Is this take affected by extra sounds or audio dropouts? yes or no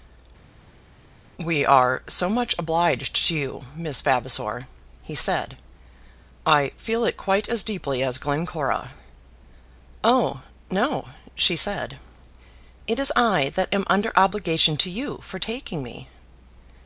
no